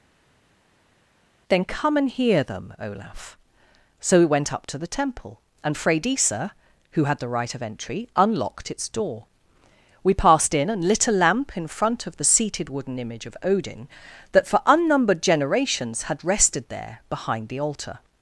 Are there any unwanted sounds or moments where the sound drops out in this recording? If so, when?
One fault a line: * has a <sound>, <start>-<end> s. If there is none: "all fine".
all fine